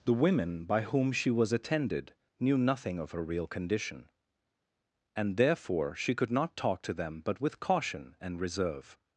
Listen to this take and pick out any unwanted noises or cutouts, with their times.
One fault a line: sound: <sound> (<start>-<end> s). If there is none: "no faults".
no faults